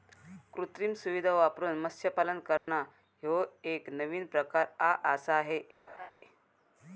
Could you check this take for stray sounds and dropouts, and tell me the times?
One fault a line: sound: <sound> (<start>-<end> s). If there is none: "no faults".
sound: dropout (2.6-2.7 s)
sound: laugh (5.9-6.1 s)